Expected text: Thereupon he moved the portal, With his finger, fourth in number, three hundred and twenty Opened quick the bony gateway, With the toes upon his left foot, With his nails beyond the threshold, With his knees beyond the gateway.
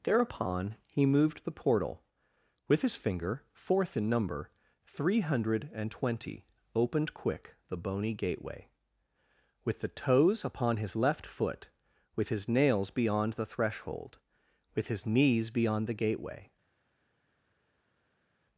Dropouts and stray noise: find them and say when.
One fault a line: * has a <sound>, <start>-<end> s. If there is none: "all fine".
all fine